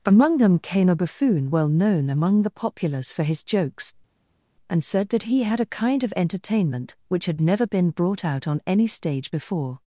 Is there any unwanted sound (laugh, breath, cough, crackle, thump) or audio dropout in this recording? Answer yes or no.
no